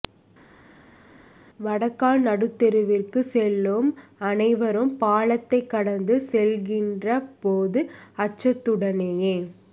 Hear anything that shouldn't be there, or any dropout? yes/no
no